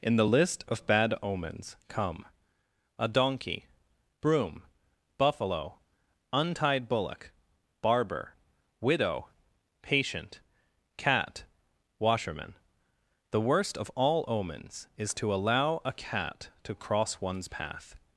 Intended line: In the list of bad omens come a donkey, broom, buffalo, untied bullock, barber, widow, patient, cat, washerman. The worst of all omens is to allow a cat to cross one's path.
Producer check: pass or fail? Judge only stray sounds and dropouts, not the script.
pass